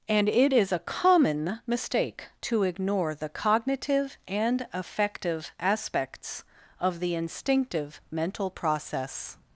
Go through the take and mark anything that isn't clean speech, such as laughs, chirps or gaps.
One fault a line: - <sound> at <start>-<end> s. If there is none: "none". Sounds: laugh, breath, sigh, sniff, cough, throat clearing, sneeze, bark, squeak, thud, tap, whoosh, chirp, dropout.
none